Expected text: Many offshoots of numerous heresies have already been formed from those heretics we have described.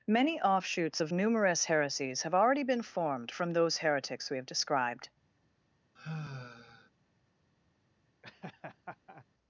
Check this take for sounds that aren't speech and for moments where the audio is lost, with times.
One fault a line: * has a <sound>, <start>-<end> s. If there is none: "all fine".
* has a sigh, 6.0-6.9 s
* has a laugh, 8.2-9.3 s